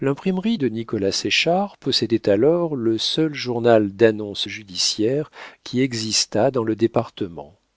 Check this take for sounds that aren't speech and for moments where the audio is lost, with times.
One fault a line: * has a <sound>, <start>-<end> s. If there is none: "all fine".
all fine